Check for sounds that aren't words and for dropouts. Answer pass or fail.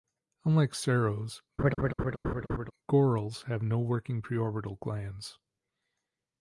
fail